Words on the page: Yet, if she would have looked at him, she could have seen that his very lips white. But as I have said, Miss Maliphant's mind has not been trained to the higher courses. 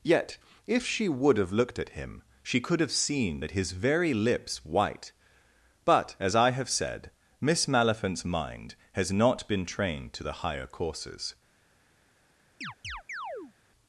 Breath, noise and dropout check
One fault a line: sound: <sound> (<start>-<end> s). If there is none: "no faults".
sound: chirp (12.6-13.5 s)